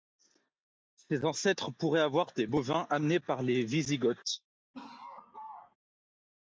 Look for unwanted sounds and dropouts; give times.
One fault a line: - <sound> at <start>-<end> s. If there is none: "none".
- laugh at 4.7-5.8 s